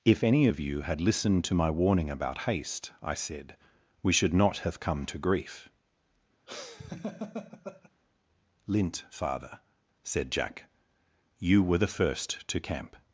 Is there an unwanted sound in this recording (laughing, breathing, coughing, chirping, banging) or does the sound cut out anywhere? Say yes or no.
yes